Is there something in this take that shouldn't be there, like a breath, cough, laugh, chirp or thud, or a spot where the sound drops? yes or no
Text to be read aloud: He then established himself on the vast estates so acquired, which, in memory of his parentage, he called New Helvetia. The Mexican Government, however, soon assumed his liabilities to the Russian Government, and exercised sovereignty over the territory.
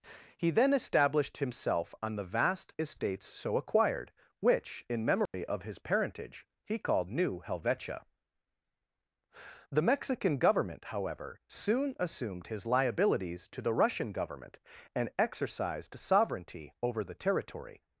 yes